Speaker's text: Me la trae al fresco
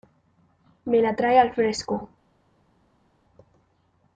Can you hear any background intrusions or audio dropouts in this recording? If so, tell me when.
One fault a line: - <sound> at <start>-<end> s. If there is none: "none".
none